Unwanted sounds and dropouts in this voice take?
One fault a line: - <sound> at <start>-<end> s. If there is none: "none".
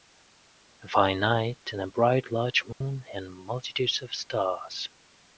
- dropout at 2.7-2.8 s